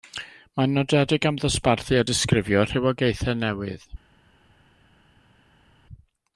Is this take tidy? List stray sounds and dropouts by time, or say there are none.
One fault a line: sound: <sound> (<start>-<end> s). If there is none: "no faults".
no faults